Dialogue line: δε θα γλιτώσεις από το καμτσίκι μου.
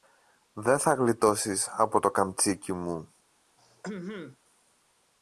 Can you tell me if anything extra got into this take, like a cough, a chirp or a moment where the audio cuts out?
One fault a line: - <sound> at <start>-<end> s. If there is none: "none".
- throat clearing at 3.6-4.4 s